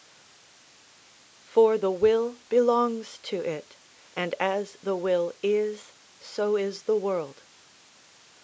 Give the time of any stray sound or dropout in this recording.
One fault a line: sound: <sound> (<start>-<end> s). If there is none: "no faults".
no faults